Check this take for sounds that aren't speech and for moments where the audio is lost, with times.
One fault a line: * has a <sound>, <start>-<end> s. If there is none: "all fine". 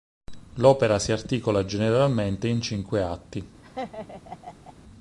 * has a laugh, 3.6-4.7 s